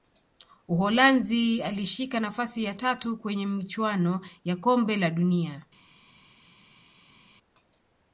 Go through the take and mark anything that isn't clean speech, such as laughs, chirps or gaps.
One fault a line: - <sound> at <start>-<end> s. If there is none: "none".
none